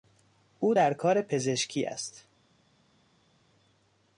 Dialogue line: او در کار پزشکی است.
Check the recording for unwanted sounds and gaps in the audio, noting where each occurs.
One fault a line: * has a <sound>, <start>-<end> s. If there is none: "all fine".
all fine